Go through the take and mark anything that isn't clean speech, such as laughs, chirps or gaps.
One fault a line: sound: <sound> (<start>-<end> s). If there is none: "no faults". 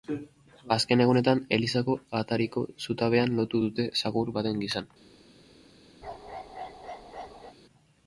sound: bark (6.0-7.6 s)